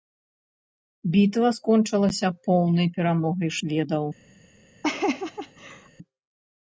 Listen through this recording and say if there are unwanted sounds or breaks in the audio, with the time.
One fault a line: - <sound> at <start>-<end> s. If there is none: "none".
- laugh at 4.8-5.9 s